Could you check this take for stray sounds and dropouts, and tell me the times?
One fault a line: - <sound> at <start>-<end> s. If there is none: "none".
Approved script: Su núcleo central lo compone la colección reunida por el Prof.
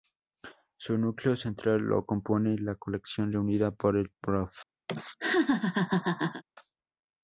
- laugh at 4.9-6.4 s